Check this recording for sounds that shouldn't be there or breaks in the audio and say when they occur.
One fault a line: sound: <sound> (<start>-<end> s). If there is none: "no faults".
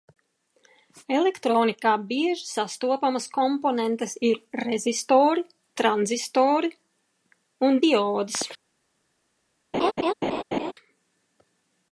sound: laugh (9.7-10.7 s)